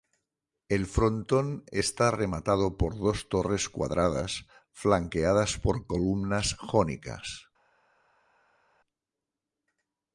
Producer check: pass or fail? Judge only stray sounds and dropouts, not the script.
pass